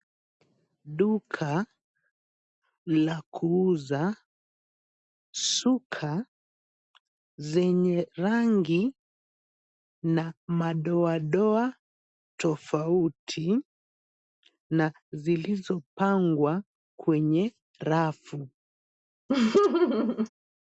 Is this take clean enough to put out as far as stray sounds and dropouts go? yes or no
no